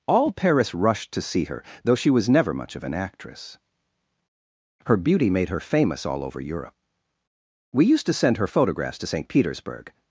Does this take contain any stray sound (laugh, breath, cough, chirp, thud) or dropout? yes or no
no